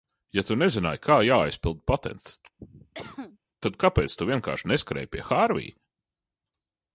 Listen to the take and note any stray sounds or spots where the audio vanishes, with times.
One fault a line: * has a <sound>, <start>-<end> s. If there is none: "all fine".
* has a cough, 2.6-3.4 s